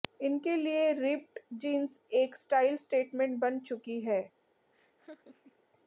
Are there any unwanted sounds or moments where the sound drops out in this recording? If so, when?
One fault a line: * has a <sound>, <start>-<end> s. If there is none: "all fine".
* has a laugh, 4.7-5.6 s